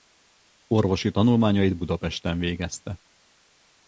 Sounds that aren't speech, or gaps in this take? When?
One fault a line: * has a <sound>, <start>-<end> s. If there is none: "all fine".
all fine